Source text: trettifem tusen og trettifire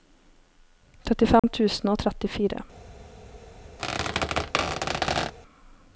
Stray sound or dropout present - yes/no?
yes